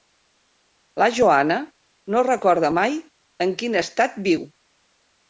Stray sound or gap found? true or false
false